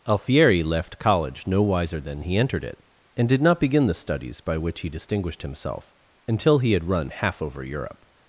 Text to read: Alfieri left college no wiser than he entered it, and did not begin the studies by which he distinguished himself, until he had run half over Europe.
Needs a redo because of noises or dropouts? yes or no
no